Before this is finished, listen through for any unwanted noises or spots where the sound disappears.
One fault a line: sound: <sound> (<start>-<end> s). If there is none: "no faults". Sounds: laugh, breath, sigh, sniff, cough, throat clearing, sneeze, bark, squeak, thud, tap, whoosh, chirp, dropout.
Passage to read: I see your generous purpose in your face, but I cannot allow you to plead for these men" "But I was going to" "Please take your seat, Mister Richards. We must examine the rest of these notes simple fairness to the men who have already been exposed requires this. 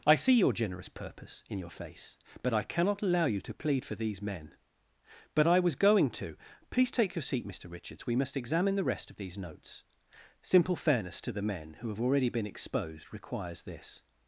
no faults